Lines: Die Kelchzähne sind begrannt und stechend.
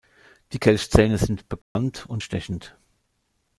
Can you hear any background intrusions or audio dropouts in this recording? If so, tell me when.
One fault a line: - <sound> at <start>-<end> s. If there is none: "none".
- dropout at 1.6-1.8 s